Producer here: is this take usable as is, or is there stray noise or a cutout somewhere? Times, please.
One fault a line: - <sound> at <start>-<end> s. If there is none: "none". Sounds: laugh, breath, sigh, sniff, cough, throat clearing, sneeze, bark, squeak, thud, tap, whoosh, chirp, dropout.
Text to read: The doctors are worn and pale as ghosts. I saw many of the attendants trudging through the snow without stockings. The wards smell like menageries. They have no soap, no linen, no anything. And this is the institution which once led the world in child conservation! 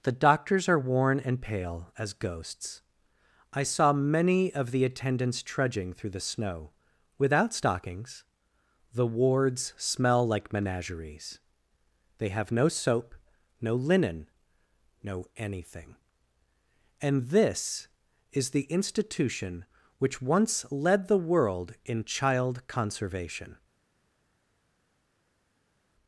none